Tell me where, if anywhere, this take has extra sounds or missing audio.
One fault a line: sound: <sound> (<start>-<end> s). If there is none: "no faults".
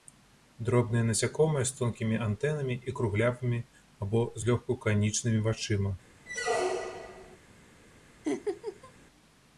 sound: squeak (6.3-7.4 s)
sound: laugh (8.2-8.9 s)